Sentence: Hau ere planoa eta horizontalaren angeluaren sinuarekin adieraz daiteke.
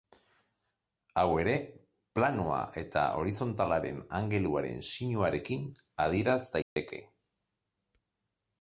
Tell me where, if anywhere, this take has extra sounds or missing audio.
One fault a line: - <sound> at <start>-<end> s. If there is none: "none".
- dropout at 6.6-6.8 s